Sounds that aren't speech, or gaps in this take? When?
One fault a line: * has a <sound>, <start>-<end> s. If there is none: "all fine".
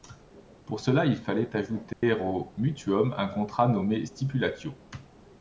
* has a dropout, 1.9-2.0 s